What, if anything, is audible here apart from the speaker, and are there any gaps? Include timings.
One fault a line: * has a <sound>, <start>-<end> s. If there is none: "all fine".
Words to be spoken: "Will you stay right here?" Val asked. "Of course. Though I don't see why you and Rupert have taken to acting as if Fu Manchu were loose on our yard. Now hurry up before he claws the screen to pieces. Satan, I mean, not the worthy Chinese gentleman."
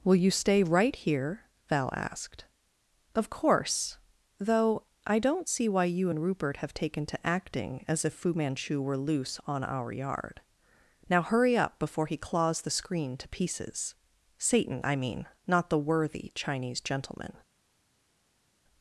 all fine